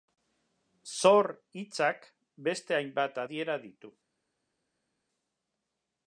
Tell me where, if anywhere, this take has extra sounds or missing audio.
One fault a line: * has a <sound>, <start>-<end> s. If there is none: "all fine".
all fine